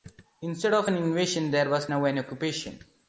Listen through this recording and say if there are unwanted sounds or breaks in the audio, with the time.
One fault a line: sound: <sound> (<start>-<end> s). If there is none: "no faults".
no faults